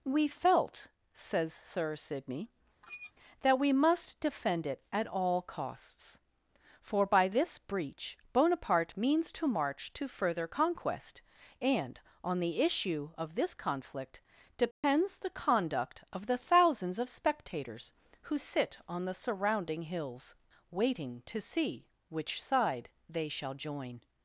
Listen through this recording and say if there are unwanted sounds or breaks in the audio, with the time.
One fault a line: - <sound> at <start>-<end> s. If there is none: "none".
- squeak at 2.8-3.1 s
- dropout at 14.7-14.8 s